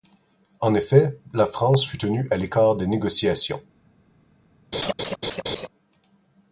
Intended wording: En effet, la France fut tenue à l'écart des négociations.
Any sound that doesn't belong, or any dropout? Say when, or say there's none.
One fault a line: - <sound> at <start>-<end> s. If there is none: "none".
- laugh at 4.7-5.7 s